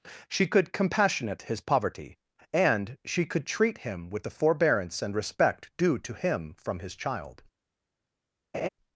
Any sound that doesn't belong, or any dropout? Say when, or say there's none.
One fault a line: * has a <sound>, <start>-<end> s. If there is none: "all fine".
* has a laugh, 8.5-8.7 s